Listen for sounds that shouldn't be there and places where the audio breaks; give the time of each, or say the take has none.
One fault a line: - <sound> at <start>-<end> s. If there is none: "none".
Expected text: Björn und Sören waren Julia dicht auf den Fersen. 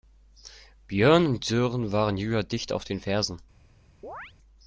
- chirp at 4.0-4.3 s